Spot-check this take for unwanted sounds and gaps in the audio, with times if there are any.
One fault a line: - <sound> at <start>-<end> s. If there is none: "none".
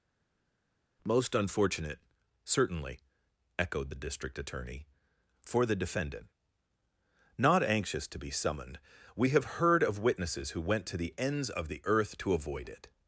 none